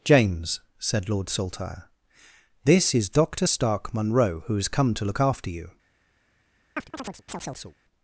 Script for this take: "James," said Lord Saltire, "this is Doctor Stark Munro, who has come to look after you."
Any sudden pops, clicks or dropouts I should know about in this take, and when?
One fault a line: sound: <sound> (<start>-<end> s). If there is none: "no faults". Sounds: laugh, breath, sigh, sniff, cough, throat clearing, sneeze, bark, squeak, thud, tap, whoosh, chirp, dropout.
sound: chirp (6.8-7.8 s)